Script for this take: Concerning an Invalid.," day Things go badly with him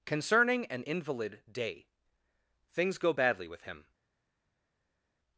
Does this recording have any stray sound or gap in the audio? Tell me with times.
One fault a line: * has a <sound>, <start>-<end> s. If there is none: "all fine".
all fine